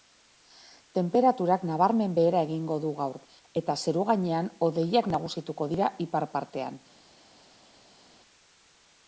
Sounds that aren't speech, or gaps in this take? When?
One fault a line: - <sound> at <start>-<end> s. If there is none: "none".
none